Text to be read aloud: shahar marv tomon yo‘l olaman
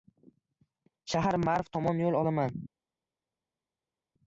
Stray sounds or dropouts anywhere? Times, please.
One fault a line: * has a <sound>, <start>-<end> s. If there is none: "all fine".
all fine